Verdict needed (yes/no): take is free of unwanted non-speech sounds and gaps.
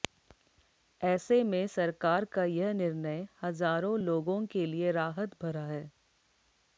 yes